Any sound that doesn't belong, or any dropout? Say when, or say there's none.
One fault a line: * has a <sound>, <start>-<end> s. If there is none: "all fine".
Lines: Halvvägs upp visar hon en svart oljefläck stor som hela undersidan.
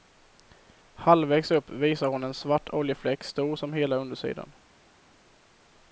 all fine